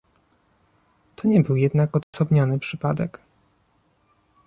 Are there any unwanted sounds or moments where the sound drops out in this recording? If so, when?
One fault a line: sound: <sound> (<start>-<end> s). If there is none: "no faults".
sound: dropout (2.0-2.1 s)